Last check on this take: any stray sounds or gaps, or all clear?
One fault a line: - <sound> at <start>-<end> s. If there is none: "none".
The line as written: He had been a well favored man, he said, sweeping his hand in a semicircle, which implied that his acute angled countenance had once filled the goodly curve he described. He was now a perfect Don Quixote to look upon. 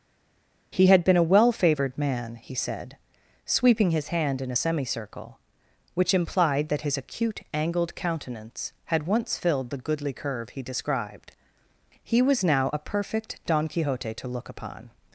none